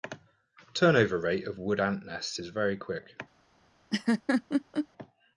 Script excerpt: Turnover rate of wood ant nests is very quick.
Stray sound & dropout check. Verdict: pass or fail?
fail